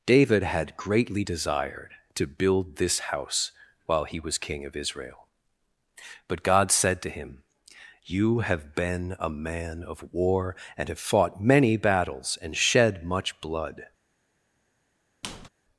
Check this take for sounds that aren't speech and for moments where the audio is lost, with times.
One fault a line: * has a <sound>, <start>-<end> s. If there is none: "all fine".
* has a squeak, 15.2-15.5 s